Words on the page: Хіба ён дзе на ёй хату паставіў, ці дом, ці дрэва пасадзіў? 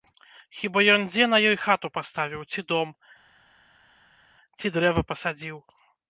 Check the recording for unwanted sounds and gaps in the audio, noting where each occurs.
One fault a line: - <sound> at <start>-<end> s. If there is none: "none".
none